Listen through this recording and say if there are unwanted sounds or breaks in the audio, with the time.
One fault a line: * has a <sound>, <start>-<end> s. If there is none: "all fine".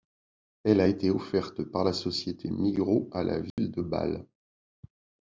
* has a dropout, 3.5-3.6 s